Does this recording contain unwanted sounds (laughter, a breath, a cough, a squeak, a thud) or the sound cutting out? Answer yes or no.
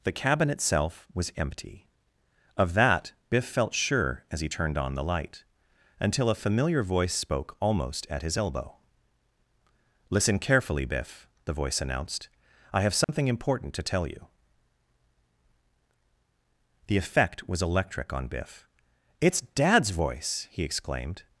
yes